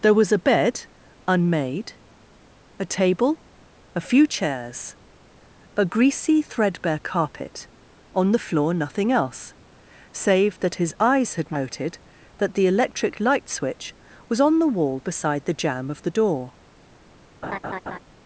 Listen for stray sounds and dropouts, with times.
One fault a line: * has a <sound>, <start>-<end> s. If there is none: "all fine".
* has a laugh, 17.4-18.0 s